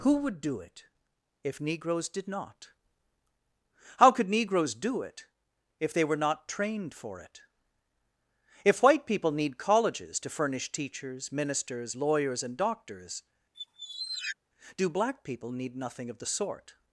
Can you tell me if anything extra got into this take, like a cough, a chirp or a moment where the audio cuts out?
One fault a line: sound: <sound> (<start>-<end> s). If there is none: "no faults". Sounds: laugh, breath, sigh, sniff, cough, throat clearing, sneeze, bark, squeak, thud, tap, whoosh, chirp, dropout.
sound: squeak (13.5-14.4 s)